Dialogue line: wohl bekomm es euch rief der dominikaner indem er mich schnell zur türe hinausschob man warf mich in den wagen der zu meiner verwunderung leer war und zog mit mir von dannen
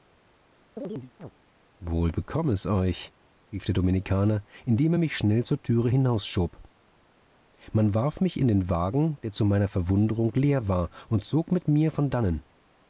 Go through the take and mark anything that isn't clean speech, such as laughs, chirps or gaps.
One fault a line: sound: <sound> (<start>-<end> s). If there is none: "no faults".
sound: chirp (0.8-1.3 s)